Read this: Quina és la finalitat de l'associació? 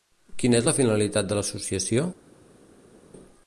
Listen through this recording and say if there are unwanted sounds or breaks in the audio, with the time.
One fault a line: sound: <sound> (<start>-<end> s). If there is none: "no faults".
no faults